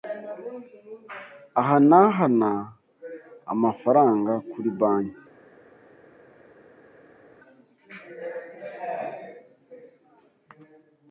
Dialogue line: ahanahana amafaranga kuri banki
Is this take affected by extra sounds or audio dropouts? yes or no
no